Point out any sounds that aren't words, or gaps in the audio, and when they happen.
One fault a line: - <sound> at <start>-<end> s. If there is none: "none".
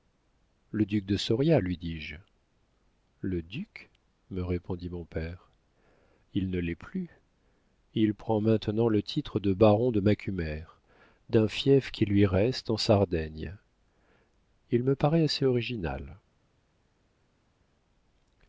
none